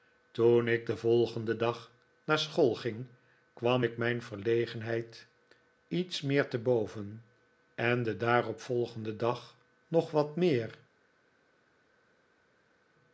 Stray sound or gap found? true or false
false